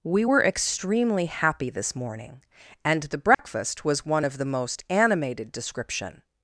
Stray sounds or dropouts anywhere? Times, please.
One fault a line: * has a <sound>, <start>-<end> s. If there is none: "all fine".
* has a dropout, 3.3-3.4 s